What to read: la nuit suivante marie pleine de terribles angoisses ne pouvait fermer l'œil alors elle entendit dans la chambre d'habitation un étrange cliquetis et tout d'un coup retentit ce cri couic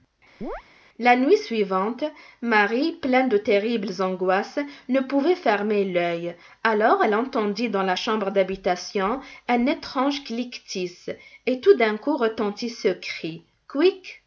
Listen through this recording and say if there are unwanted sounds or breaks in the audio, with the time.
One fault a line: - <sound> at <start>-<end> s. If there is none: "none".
- chirp at 0.4-0.6 s